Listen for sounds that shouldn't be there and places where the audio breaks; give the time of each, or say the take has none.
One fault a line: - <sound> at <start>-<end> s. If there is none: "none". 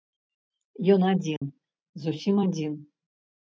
- dropout at 1.4-1.4 s